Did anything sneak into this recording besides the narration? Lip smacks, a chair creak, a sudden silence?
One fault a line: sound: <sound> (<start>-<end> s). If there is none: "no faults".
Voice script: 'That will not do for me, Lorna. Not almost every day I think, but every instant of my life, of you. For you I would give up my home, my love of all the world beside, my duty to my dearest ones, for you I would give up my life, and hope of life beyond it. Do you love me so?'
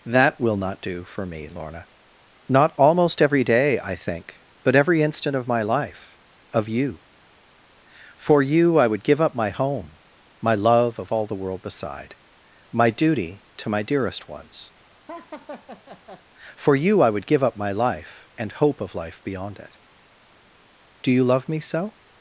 sound: laugh (15.1-16.2 s)